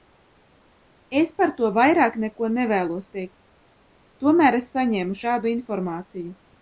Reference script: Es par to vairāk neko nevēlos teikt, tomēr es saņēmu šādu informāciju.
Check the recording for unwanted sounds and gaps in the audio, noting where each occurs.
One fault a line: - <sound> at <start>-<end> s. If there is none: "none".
none